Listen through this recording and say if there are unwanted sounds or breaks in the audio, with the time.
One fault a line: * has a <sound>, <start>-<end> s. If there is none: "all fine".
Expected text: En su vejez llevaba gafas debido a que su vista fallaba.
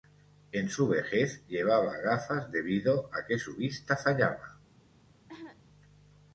* has a cough, 5.3-5.6 s